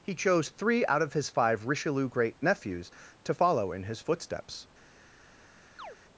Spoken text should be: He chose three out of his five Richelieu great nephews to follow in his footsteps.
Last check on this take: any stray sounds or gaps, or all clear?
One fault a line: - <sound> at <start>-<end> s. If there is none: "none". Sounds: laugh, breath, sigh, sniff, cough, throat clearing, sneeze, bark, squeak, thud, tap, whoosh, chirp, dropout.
- chirp at 5.8-6.0 s